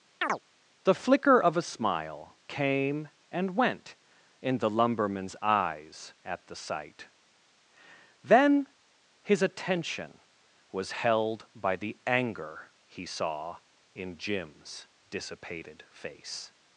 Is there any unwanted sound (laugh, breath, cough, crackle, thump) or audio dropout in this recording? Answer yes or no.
yes